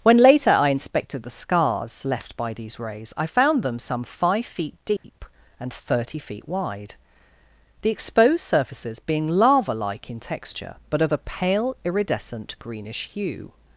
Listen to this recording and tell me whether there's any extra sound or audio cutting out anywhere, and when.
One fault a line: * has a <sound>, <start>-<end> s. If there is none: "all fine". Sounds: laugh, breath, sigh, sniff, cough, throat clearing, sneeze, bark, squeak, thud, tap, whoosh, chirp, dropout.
* has a dropout, 5.0-5.0 s